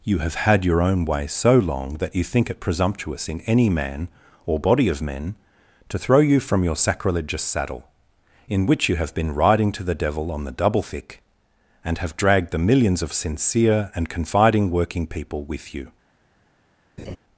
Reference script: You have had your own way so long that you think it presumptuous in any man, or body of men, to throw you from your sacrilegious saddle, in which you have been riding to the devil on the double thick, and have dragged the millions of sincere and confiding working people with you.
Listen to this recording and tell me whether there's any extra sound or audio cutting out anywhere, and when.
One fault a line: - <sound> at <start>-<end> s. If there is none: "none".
- laugh at 17.0-17.2 s